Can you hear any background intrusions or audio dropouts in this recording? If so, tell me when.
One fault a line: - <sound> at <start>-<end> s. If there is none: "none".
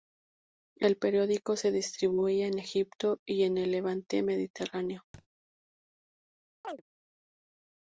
- thud at 5.1-5.3 s
- chirp at 6.6-6.8 s